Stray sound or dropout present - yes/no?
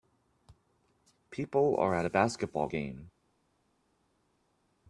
no